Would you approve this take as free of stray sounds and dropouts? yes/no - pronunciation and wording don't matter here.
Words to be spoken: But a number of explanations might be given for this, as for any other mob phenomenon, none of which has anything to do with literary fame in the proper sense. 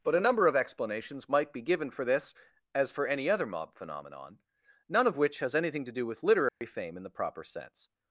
no